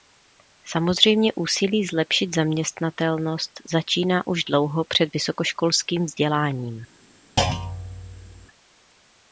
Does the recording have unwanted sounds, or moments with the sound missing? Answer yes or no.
yes